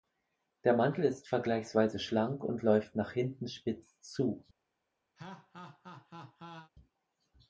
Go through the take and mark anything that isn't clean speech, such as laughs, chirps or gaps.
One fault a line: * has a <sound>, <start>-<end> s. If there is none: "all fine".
* has a laugh, 5.2-6.7 s